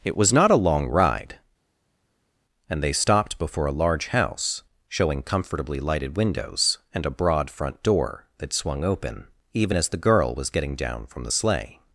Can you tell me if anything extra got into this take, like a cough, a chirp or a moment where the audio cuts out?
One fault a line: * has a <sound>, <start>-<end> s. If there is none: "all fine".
all fine